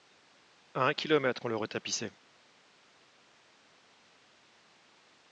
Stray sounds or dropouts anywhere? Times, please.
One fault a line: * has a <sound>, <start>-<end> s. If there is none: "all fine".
all fine